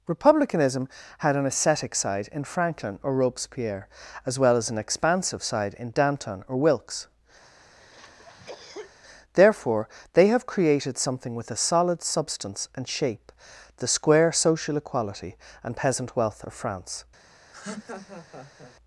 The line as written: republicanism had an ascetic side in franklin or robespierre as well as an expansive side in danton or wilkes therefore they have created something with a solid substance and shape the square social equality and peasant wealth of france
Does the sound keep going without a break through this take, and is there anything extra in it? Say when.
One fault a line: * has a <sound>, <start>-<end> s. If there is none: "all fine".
* has a cough, 7.4-8.9 s
* has a laugh, 17.5-18.8 s